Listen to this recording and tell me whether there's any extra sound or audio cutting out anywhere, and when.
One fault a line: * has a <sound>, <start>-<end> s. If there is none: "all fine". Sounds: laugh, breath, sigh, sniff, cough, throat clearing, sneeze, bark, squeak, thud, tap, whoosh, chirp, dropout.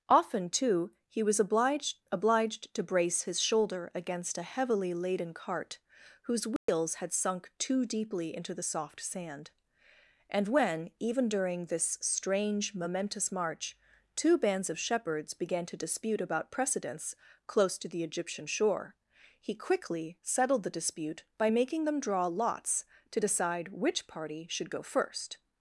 * has a dropout, 6.6-6.7 s